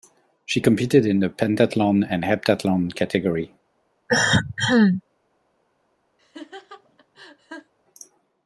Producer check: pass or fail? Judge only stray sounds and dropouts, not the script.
fail